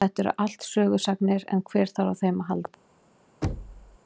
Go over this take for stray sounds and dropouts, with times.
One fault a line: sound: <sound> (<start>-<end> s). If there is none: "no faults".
sound: thud (3.4-4.0 s)